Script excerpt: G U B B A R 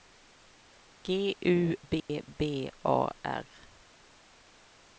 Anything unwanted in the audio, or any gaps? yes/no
yes